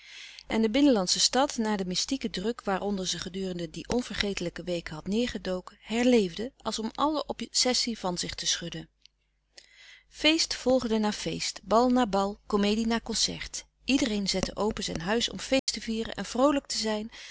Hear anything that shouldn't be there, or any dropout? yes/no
yes